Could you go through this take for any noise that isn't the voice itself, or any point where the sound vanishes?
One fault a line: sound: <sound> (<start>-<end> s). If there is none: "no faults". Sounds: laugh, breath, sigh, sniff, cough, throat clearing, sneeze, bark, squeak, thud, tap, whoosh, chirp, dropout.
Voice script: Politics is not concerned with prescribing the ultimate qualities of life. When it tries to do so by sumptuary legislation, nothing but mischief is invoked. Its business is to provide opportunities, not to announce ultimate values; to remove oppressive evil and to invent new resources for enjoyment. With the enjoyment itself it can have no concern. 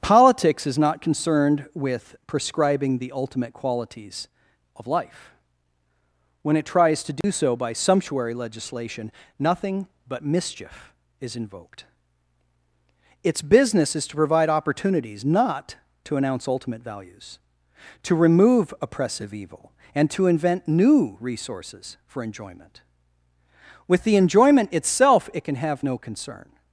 sound: dropout (7.2-7.2 s)